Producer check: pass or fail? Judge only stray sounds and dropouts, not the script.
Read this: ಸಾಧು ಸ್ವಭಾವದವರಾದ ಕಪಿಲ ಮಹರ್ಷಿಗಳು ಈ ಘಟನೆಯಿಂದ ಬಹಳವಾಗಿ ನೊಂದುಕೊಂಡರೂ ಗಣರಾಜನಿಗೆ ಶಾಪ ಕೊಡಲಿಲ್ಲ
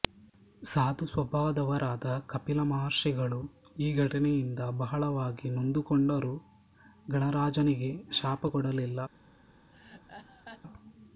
fail